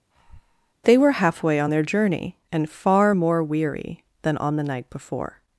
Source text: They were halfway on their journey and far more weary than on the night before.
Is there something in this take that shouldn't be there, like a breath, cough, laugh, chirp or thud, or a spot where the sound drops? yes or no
yes